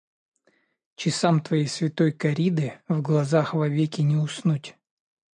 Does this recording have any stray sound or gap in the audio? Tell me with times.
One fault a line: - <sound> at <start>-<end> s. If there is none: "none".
none